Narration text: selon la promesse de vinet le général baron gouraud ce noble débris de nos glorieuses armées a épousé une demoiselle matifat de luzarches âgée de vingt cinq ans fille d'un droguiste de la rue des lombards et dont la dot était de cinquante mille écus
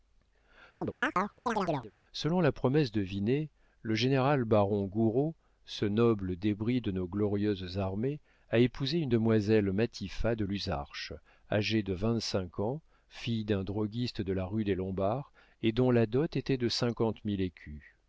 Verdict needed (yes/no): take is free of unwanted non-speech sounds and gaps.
no